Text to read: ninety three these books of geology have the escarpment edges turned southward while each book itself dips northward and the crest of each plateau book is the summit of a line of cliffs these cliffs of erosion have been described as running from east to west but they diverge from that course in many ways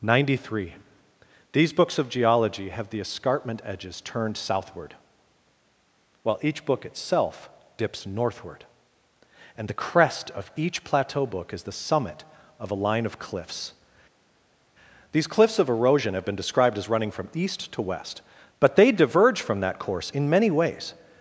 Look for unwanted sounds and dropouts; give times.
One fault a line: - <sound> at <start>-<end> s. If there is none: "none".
none